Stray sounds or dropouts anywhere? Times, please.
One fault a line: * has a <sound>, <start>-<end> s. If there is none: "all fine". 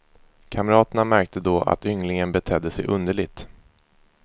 all fine